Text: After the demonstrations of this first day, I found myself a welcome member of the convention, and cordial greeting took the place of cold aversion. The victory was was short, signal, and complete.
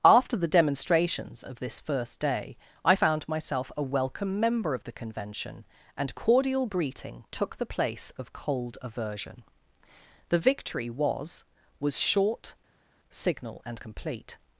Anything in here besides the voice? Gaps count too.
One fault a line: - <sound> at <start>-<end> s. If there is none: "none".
none